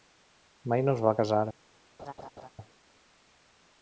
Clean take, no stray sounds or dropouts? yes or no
no